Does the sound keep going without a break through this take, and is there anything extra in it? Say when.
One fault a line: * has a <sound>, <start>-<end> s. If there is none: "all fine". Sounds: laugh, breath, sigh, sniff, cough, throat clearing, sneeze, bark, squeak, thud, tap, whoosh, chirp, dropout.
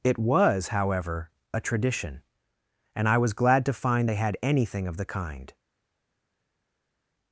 all fine